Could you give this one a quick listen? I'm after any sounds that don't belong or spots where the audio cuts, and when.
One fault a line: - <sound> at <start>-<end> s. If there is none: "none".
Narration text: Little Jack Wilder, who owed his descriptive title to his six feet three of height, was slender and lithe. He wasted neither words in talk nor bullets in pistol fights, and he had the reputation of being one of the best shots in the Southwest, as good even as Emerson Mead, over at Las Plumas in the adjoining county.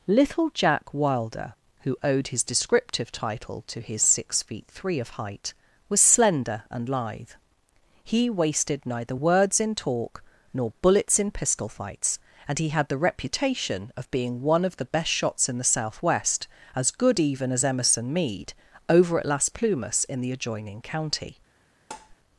- tap at 21.9-22.2 s